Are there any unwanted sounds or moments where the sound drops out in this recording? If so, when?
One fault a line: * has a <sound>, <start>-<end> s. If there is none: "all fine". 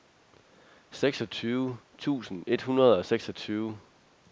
all fine